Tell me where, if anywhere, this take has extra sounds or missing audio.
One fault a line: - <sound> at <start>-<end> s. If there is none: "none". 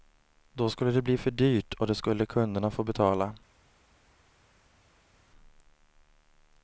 none